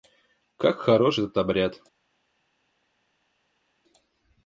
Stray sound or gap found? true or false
false